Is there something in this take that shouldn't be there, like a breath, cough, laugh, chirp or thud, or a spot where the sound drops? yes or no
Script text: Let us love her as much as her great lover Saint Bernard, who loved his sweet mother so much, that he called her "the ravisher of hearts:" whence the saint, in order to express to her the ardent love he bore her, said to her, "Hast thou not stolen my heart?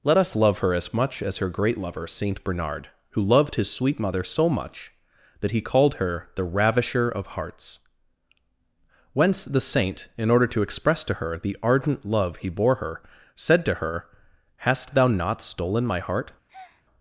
yes